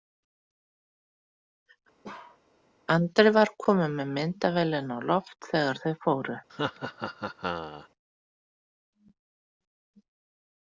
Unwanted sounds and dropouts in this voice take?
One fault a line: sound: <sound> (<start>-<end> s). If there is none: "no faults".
sound: bark (2.0-2.4 s)
sound: laugh (6.5-7.9 s)